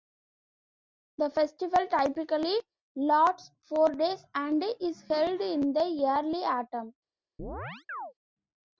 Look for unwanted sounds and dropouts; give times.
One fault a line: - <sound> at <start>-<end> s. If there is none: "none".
- chirp at 7.4-8.1 s